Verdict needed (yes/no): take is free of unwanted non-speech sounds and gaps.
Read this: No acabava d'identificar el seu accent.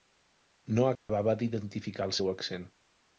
no